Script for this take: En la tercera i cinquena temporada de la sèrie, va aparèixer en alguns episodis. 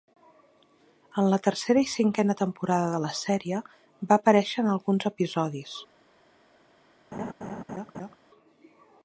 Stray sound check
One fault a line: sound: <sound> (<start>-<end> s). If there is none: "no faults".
sound: laugh (7.1-8.2 s)